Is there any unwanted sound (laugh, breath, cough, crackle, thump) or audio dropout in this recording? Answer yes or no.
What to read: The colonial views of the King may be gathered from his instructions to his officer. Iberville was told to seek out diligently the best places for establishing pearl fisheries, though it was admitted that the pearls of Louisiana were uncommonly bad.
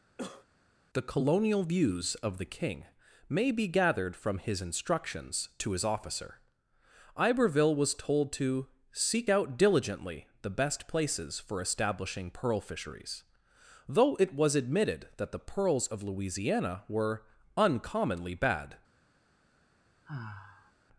yes